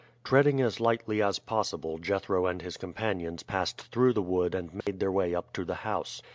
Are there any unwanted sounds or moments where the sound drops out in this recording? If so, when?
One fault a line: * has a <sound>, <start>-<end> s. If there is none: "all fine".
* has a dropout, 4.8-4.9 s